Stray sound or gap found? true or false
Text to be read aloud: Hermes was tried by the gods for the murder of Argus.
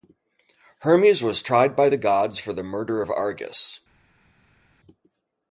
false